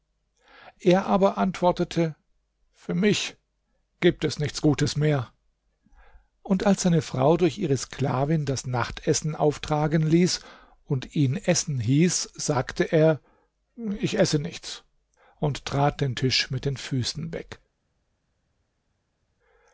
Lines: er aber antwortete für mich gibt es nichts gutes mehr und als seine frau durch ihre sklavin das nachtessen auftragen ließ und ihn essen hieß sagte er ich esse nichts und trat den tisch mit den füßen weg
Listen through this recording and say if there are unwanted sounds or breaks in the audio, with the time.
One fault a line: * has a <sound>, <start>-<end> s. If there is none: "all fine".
all fine